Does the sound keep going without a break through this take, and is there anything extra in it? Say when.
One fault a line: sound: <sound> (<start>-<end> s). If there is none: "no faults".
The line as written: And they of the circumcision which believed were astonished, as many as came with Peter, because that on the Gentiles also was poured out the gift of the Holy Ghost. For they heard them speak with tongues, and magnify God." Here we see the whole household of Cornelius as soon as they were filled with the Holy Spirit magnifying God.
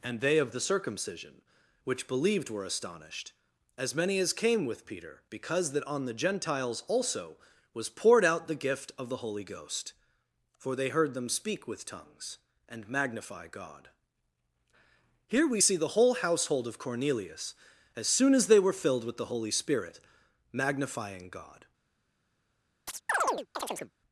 sound: chirp (22.9-23.9 s)